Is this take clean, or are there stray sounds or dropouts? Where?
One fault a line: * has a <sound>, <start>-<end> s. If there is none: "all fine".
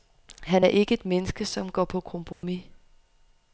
* has a dropout, 2.3-2.4 s